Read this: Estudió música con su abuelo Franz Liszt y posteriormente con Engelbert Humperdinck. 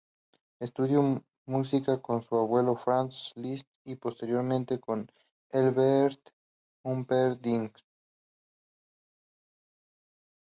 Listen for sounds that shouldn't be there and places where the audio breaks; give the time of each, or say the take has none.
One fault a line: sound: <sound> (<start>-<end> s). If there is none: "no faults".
no faults